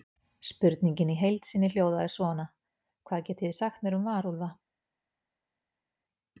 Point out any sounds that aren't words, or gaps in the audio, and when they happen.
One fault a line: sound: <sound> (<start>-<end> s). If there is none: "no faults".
no faults